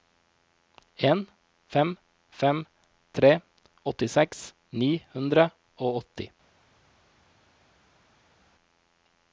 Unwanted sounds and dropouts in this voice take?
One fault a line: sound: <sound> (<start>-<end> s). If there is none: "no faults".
no faults